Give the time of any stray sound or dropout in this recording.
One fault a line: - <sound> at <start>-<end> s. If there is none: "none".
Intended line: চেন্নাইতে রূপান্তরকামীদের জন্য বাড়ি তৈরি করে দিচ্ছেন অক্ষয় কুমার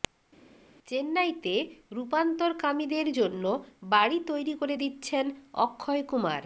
none